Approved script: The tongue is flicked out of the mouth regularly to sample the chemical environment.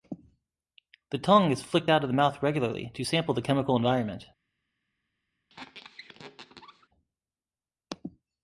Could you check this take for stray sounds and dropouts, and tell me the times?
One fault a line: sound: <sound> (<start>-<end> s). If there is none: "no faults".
sound: squeak (5.5-6.9 s)